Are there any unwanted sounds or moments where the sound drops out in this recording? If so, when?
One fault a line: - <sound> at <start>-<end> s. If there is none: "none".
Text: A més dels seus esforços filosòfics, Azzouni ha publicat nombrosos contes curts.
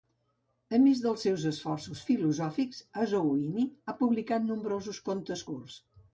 none